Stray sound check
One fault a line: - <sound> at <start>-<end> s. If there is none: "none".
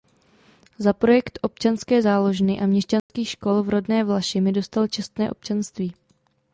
- dropout at 3.0-3.1 s